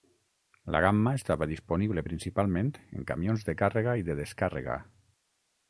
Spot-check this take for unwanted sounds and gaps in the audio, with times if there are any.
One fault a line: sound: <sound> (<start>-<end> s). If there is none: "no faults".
no faults